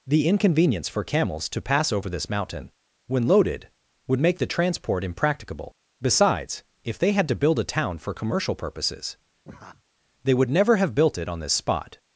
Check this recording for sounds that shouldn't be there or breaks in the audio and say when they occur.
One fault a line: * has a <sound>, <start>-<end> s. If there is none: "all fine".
* has a laugh, 9.4-9.8 s